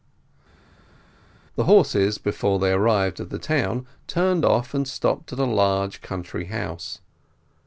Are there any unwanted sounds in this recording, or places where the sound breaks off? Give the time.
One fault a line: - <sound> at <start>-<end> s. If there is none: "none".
none